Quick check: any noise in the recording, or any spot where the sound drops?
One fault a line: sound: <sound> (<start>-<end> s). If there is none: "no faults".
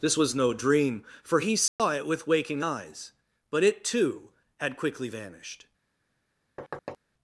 sound: dropout (1.7-1.8 s)
sound: thud (6.6-7.0 s)